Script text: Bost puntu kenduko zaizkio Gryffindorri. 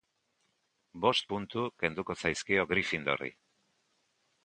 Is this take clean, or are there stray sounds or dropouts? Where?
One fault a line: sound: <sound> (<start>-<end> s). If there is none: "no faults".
no faults